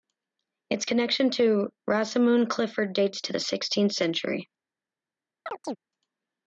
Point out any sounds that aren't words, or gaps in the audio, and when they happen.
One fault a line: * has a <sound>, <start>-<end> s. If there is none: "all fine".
* has a chirp, 5.5-5.8 s